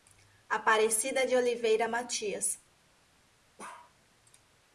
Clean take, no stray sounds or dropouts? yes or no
no